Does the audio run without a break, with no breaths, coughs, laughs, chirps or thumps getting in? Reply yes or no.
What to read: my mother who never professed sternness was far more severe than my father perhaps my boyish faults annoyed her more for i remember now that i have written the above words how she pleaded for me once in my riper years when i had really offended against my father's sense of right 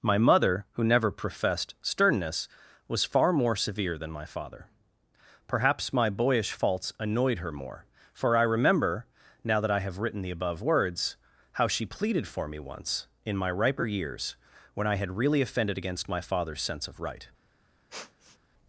no